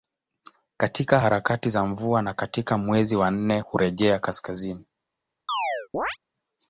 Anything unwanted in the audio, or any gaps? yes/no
yes